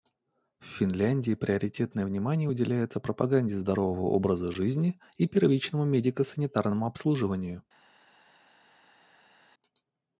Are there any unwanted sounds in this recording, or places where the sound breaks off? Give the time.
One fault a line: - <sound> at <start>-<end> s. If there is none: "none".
none